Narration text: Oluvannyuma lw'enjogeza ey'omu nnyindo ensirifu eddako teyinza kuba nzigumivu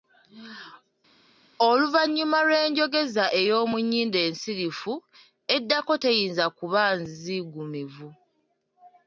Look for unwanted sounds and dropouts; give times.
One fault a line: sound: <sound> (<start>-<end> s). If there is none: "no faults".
no faults